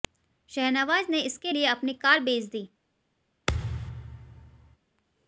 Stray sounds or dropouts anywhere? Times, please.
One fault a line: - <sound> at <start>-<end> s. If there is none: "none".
- thud at 3.5-4.8 s